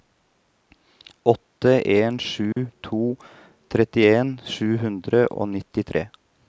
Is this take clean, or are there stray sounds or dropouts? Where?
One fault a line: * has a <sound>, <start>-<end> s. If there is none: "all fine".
* has a dropout, 2.5-2.6 s